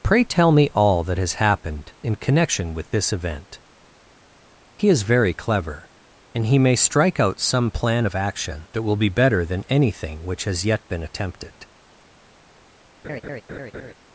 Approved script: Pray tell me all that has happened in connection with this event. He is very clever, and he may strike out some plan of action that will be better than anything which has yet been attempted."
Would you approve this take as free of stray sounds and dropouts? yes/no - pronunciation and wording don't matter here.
no